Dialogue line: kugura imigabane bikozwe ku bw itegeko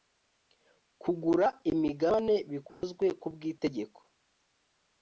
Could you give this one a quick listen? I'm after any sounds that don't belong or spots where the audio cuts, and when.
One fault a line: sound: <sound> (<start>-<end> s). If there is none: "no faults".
sound: dropout (2.7-2.8 s)